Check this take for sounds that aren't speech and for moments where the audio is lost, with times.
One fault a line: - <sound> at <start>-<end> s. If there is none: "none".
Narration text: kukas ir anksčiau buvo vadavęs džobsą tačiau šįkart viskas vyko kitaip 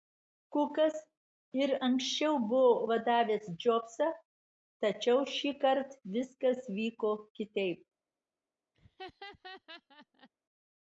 - laugh at 8.7-10.3 s